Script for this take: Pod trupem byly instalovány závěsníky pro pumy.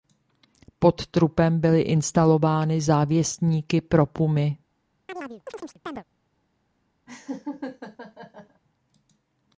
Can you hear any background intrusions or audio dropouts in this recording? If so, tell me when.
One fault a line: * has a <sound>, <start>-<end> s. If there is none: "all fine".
* has a chirp, 5.1-6.0 s
* has a laugh, 7.1-8.6 s